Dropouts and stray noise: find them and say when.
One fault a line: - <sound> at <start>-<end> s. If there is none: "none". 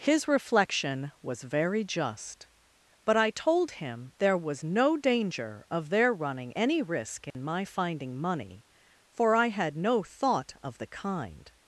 - dropout at 7.3-7.3 s